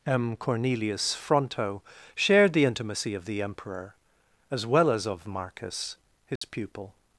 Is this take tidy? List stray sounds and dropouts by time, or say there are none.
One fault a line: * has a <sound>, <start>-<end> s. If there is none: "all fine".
* has a dropout, 6.4-6.4 s